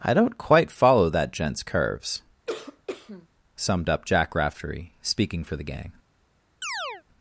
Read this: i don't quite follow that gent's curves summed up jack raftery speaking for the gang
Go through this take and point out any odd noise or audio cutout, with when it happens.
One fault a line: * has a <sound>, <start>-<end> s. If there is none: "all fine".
* has a cough, 2.5-3.3 s
* has a chirp, 6.6-7.0 s